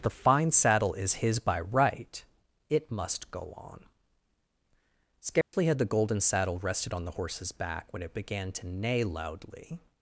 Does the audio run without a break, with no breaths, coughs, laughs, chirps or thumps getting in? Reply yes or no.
no